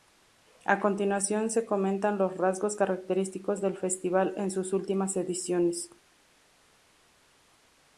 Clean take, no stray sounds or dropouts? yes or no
yes